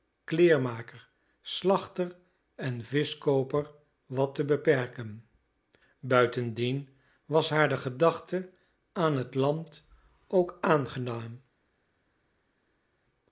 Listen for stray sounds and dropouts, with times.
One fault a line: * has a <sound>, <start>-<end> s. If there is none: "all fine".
all fine